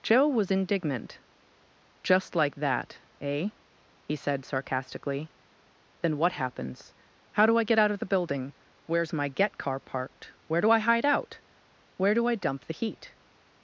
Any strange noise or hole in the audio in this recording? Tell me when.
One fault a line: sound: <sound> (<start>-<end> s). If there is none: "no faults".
no faults